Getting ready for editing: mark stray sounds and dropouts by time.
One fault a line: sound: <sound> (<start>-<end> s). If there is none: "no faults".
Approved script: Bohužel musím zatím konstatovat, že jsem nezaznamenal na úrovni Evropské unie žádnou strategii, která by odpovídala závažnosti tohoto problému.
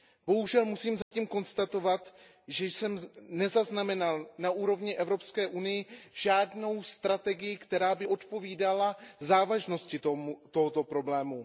sound: dropout (1.0-1.1 s)